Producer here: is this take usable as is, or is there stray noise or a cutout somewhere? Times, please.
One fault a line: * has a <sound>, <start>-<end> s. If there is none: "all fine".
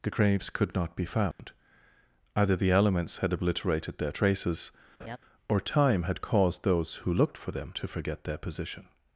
* has a dropout, 1.3-1.4 s
* has a laugh, 5.0-5.2 s